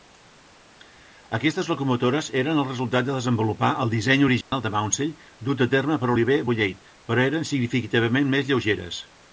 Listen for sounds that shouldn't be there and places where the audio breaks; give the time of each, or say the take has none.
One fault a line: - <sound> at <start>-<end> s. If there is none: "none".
- dropout at 4.4-4.5 s